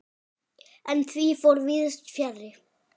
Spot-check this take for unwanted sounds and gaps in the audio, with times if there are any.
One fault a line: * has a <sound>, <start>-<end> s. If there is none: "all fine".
all fine